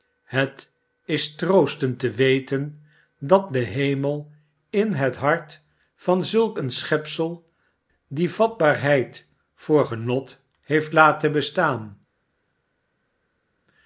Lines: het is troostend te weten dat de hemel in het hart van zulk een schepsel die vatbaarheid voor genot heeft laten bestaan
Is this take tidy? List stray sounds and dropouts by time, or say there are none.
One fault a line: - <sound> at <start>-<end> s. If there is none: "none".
none